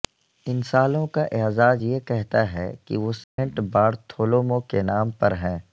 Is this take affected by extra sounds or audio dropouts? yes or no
yes